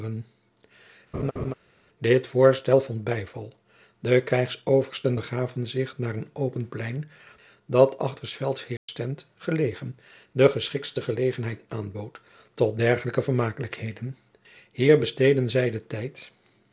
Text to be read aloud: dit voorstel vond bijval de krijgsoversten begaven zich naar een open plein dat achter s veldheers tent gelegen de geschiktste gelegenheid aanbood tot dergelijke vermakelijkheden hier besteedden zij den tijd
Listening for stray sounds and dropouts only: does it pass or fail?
fail